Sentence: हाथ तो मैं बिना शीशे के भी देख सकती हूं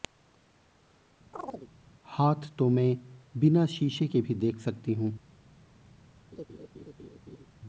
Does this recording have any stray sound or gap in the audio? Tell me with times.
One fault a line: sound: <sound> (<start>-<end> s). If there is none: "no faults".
sound: chirp (1.3-1.7 s)
sound: laugh (6.3-7.5 s)